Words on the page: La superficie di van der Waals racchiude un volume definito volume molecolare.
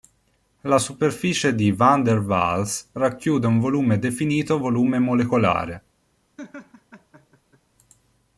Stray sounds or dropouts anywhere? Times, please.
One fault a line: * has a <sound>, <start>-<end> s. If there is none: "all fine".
* has a laugh, 6.4-7.6 s